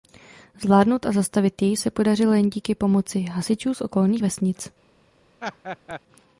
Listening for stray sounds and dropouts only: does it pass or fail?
fail